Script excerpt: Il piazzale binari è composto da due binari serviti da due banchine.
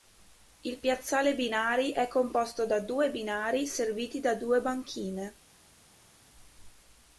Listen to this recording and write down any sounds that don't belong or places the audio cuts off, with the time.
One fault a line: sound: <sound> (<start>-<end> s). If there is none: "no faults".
no faults